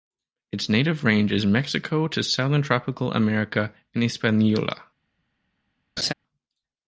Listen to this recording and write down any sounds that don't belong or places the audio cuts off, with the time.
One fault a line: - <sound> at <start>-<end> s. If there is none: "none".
- laugh at 6.0-6.1 s